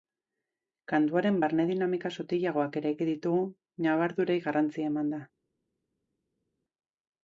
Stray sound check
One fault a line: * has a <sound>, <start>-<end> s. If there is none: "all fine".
all fine